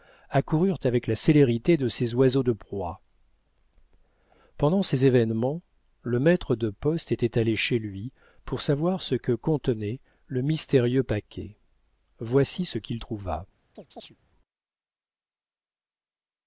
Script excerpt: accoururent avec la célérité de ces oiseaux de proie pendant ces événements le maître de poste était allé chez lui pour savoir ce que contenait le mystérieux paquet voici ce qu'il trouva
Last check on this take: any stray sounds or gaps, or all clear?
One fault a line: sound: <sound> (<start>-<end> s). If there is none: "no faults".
sound: chirp (13.8-14.2 s)